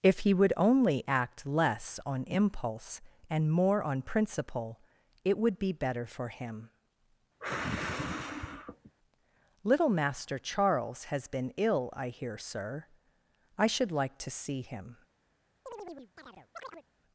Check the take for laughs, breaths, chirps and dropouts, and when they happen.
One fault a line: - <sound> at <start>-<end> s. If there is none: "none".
- sigh at 7.4-8.9 s
- chirp at 15.7-16.9 s